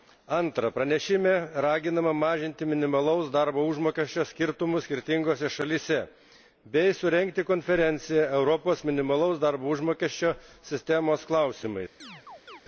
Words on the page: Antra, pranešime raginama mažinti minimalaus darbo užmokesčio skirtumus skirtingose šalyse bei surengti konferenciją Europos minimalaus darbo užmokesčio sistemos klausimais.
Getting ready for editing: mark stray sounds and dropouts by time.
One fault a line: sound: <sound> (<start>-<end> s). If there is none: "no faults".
sound: chirp (12.0-12.6 s)